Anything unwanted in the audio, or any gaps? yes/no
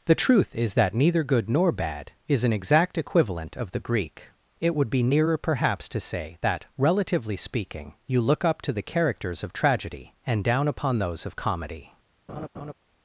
yes